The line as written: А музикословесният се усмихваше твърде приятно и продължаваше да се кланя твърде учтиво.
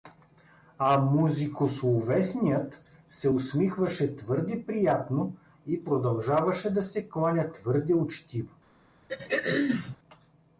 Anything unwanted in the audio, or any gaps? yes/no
yes